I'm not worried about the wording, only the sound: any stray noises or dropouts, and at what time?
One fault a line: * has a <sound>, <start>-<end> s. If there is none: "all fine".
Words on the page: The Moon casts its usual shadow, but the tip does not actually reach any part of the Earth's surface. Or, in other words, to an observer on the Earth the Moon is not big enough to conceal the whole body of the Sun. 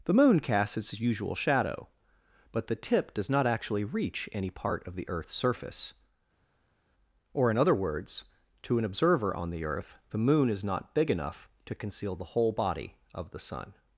all fine